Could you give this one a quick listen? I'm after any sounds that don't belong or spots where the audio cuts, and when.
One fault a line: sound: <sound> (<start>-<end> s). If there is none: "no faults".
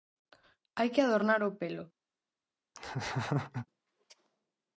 sound: laugh (2.8-3.7 s)